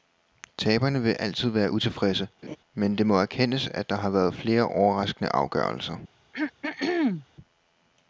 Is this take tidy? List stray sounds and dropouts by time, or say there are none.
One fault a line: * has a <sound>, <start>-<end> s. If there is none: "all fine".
* has a laugh, 2.4-2.6 s
* has a throat clearing, 6.3-7.3 s